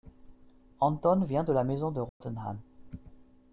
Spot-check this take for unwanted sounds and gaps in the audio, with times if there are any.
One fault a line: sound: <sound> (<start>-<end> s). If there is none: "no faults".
sound: dropout (2.1-2.2 s)